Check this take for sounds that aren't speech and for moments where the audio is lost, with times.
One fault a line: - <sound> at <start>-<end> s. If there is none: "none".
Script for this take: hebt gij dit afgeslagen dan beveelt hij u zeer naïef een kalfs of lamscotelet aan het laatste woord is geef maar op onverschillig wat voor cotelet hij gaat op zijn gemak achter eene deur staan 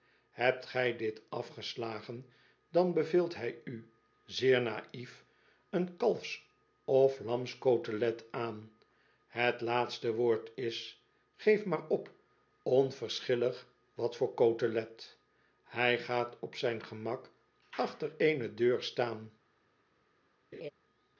- laugh at 20.5-20.7 s